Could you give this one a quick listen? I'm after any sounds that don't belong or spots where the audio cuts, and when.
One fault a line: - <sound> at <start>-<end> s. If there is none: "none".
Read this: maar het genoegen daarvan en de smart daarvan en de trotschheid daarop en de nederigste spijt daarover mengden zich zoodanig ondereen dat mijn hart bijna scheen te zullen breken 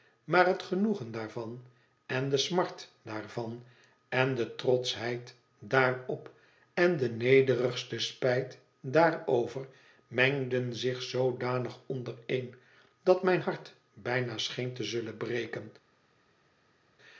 none